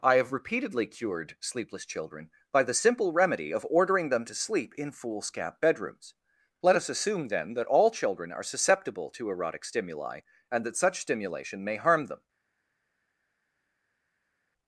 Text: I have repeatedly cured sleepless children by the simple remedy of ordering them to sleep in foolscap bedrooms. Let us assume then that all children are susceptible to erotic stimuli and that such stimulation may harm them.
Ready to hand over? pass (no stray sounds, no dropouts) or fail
pass